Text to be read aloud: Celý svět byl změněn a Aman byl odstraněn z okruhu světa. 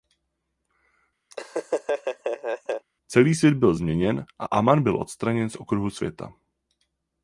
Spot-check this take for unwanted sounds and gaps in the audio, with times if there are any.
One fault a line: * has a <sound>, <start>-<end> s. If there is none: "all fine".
* has a laugh, 1.3-2.9 s